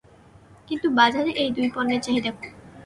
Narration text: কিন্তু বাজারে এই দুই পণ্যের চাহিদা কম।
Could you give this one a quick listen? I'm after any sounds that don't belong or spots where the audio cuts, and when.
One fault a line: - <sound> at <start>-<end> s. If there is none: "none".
none